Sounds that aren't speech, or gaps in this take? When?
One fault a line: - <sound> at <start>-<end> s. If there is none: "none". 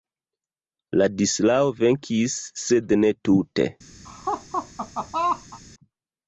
- laugh at 4.0-5.6 s